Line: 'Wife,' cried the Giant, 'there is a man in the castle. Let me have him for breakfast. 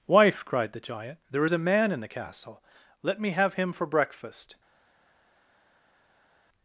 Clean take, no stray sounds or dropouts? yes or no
yes